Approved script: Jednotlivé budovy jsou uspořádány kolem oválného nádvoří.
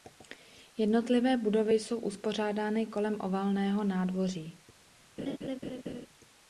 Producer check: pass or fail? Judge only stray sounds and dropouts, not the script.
fail